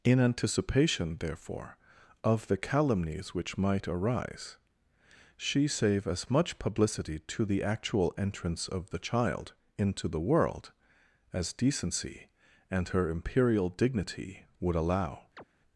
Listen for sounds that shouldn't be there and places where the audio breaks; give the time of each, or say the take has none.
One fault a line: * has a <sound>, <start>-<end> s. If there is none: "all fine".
* has a chirp, 15.4-15.4 s